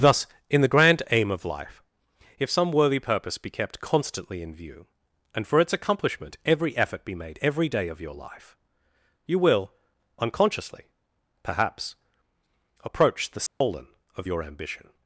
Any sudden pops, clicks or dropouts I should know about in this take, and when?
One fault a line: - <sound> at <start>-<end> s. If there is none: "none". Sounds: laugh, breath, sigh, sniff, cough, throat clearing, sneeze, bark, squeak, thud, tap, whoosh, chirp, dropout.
- dropout at 13.5-13.6 s